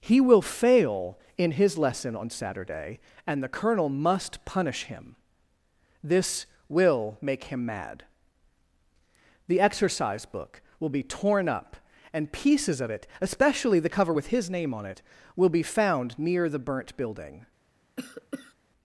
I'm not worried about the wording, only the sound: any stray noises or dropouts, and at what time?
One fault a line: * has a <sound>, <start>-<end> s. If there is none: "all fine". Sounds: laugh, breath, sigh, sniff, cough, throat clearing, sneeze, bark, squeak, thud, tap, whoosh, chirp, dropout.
* has a cough, 18.0-18.5 s